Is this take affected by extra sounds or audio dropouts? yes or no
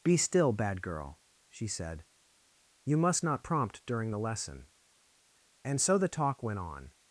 no